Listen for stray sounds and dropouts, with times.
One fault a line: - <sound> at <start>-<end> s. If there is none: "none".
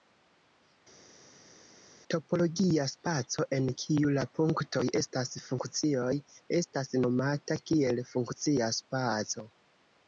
none